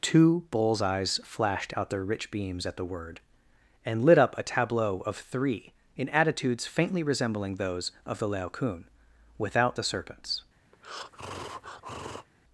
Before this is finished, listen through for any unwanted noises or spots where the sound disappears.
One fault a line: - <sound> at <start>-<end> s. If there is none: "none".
- breath at 10.7-12.3 s